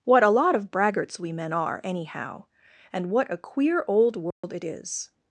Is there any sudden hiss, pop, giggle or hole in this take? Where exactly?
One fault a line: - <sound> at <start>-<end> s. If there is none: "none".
- dropout at 4.3-4.4 s